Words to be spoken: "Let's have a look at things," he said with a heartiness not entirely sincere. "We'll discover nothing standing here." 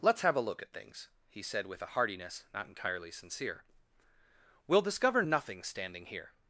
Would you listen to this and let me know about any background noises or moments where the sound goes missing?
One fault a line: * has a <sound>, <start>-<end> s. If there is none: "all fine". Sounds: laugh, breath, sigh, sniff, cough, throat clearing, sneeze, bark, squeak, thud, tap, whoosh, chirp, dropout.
all fine